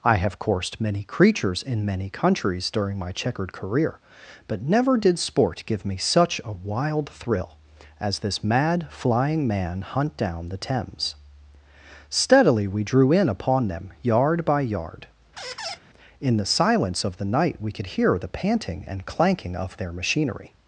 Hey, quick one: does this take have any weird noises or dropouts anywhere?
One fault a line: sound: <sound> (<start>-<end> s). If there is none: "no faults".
sound: squeak (15.4-15.8 s)